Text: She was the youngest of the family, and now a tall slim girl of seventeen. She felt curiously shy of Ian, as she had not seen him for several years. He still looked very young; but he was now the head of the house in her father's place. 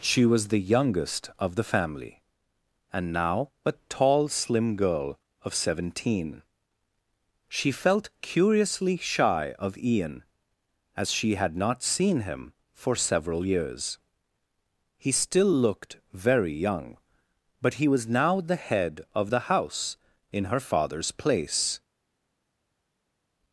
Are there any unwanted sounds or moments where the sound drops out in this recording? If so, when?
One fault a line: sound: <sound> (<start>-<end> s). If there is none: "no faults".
no faults